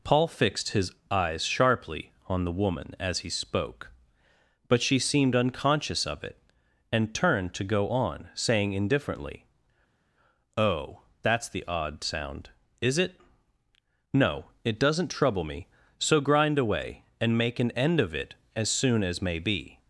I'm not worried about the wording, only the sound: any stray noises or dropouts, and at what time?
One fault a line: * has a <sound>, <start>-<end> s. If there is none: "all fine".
all fine